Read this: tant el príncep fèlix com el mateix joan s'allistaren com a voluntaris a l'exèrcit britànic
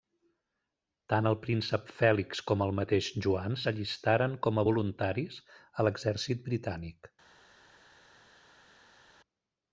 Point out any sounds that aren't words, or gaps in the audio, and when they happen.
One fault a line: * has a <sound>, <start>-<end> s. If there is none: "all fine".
all fine